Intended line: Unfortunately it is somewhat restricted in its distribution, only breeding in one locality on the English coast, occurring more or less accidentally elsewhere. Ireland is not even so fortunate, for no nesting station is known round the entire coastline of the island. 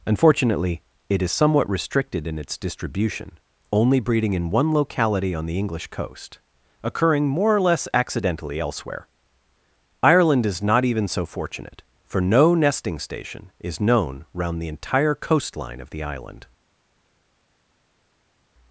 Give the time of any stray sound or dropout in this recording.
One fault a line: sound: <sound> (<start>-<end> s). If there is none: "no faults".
no faults